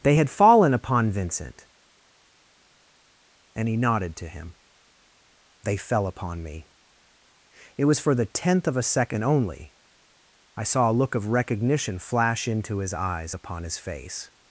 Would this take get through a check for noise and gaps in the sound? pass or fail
pass